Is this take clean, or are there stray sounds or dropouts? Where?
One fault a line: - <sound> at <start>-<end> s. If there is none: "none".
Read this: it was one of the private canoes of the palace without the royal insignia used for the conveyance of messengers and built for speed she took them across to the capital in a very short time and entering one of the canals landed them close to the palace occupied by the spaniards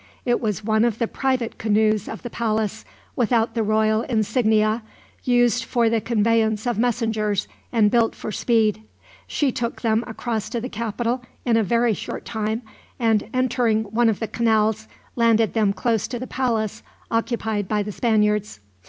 none